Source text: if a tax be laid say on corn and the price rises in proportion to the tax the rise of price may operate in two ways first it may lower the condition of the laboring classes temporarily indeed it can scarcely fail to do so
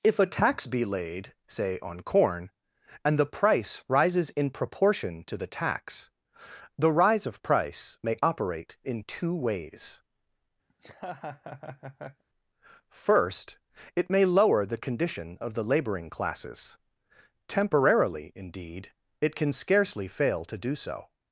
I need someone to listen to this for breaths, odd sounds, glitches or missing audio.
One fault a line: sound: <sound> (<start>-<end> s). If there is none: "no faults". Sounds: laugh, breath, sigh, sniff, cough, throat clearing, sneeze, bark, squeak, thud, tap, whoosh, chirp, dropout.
sound: laugh (10.7-12.2 s)